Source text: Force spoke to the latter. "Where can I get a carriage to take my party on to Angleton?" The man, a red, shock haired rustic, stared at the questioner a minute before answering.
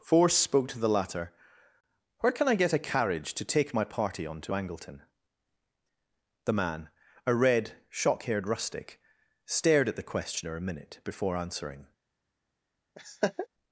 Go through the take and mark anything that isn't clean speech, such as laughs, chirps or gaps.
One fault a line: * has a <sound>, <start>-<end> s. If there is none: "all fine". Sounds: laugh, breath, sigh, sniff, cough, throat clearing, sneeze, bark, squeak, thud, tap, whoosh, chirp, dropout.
* has a laugh, 13.0-13.5 s